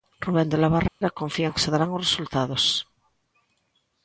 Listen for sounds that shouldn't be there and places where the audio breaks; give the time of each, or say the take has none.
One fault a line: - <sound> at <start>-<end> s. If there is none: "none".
- dropout at 0.9-1.0 s